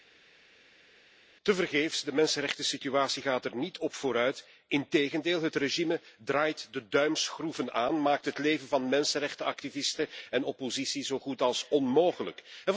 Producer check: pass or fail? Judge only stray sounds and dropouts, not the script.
pass